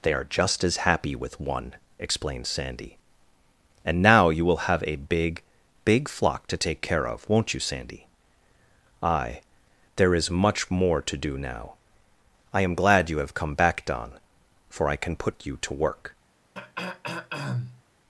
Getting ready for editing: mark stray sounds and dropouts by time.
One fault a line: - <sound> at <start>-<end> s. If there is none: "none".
- throat clearing at 16.5-17.8 s